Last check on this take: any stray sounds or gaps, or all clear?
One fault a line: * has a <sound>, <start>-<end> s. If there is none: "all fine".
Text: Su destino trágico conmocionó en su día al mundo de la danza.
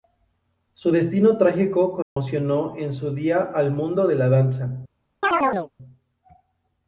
* has a dropout, 2.0-2.2 s
* has a chirp, 5.2-5.7 s